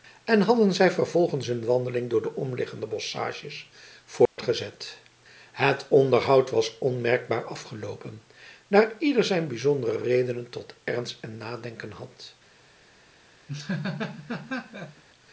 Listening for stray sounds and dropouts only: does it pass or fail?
fail